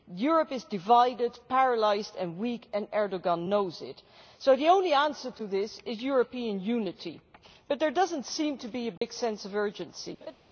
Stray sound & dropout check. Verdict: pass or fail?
fail